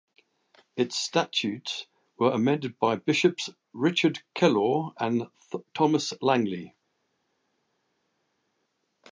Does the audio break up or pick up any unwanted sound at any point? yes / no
no